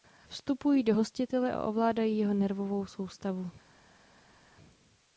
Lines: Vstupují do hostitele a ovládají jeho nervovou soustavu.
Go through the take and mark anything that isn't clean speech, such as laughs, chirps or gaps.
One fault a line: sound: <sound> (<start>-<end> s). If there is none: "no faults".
no faults